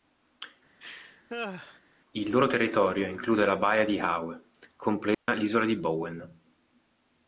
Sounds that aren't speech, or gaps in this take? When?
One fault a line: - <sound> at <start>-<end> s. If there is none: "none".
- laugh at 0.8-1.8 s
- dropout at 5.1-5.3 s